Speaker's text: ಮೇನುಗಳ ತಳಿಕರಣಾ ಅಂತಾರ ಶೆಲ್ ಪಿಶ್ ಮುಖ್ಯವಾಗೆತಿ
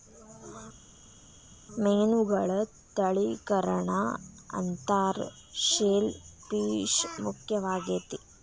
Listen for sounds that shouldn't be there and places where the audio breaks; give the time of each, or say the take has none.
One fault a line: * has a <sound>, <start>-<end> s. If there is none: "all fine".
all fine